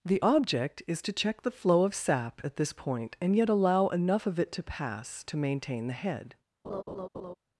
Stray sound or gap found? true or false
true